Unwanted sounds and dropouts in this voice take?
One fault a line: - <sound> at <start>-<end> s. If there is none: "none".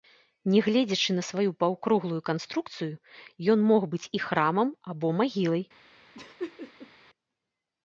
- laugh at 6.1-6.9 s